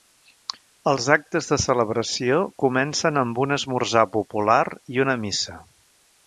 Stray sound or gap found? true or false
false